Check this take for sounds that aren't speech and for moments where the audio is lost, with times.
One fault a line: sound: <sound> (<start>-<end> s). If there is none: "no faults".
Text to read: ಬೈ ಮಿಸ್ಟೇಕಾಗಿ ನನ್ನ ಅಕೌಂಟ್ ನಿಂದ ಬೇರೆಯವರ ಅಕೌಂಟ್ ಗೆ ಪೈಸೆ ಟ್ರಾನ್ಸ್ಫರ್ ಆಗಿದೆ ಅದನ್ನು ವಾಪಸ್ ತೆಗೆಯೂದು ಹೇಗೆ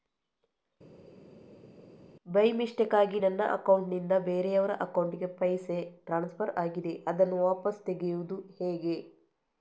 no faults